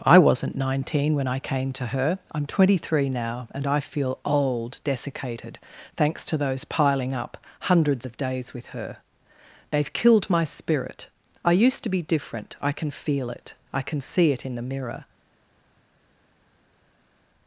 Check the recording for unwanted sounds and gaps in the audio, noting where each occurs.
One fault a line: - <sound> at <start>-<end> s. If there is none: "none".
none